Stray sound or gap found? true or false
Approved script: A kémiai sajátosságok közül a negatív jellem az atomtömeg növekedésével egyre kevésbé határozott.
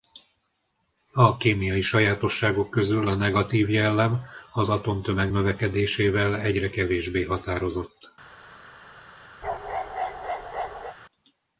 true